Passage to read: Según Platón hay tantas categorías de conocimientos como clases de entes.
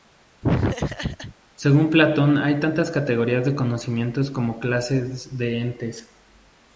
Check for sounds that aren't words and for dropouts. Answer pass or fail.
fail